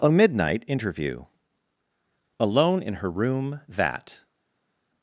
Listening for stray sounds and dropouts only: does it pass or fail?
pass